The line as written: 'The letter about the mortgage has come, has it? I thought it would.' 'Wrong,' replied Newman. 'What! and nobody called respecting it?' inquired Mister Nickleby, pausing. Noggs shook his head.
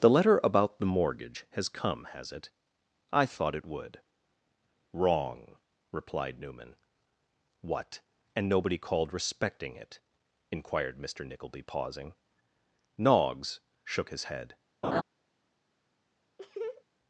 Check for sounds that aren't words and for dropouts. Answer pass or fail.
fail